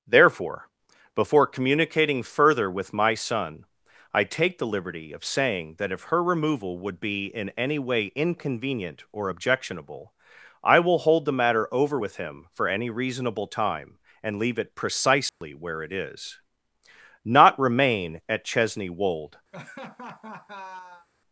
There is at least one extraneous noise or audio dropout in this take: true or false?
true